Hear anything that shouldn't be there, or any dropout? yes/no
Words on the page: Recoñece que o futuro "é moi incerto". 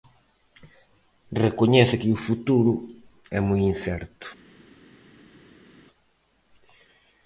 no